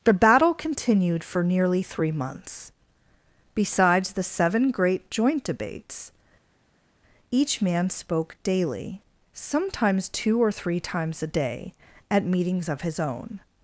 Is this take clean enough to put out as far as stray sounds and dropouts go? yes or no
yes